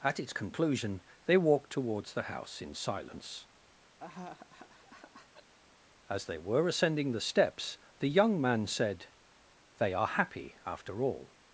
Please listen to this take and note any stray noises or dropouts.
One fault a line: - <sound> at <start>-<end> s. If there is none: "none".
- laugh at 4.0-5.5 s